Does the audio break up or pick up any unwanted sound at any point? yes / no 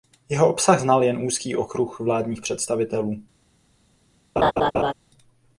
yes